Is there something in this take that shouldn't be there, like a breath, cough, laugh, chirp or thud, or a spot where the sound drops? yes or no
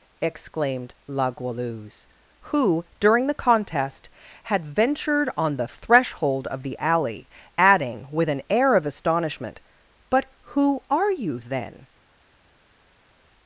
no